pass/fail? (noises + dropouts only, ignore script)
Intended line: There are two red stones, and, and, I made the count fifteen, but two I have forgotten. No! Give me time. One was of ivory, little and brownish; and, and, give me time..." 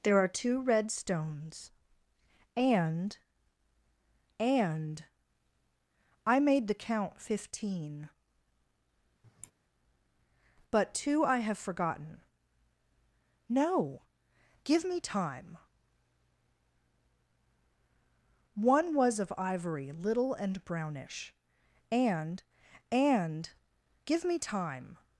fail